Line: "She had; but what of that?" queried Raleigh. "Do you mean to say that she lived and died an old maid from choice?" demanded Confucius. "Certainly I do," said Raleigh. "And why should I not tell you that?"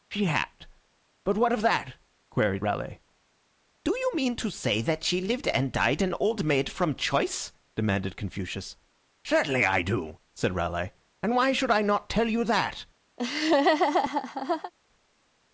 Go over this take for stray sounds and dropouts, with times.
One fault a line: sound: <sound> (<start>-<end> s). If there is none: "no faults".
sound: laugh (13.2-14.7 s)